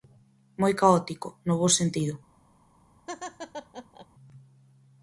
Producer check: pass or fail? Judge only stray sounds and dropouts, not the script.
fail